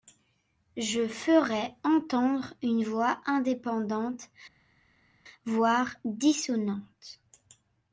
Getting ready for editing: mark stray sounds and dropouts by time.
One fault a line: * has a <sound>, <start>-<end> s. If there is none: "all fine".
all fine